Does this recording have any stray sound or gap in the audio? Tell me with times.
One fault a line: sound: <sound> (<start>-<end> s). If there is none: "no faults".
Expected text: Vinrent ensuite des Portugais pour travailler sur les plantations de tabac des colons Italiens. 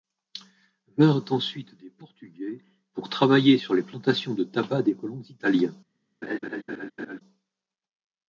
sound: laugh (6.2-7.2 s)